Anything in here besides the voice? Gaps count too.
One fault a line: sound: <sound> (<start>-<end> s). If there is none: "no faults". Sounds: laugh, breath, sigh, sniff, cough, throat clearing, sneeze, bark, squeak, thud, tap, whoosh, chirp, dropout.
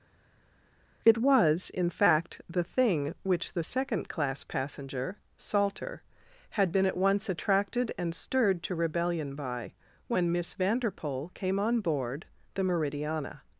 no faults